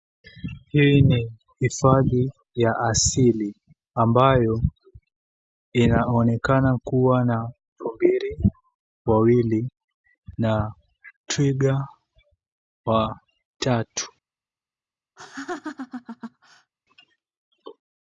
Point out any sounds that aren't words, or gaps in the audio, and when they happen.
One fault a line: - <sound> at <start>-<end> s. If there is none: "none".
- laugh at 15.2-16.7 s